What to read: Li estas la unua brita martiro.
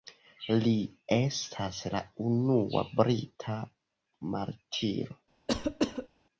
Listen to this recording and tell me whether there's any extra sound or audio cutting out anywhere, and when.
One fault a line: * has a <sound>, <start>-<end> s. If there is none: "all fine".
* has a cough, 5.5-6.1 s